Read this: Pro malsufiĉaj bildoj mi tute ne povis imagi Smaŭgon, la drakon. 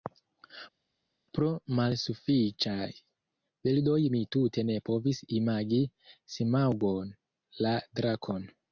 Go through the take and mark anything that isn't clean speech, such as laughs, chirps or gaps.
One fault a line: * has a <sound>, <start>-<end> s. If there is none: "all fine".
all fine